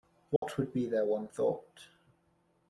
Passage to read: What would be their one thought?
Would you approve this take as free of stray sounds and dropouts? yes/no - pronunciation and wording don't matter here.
no